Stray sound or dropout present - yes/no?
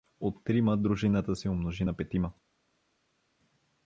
no